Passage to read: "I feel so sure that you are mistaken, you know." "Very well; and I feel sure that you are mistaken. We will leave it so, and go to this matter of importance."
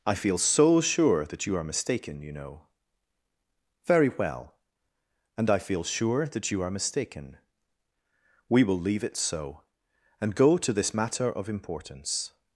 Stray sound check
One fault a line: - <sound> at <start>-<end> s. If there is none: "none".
none